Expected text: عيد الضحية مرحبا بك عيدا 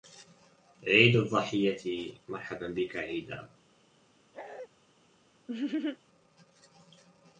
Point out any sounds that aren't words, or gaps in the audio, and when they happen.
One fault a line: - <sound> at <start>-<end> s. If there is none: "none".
- bark at 4.3-4.7 s
- laugh at 5.5-6.0 s